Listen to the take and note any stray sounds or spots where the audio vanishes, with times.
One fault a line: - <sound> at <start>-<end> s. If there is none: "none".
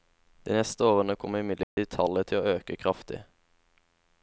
- dropout at 1.6-1.8 s